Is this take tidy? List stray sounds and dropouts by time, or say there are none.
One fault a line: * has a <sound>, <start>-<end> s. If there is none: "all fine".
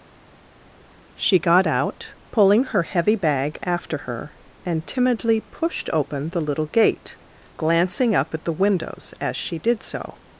all fine